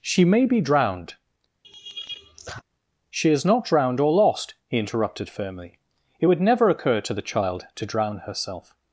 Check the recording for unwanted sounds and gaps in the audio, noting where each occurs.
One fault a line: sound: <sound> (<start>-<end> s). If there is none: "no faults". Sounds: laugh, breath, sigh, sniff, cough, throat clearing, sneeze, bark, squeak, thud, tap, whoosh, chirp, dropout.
sound: laugh (1.6-2.6 s)